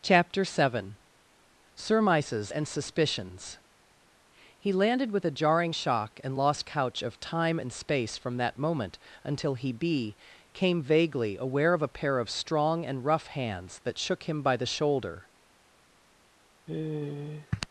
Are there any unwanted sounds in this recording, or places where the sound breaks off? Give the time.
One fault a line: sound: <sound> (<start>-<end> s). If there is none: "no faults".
sound: sigh (16.7-17.7 s)